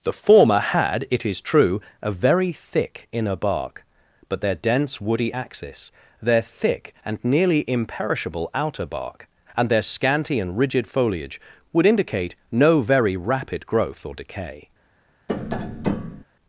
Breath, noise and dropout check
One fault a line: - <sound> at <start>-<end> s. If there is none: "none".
- tap at 15.3-16.2 s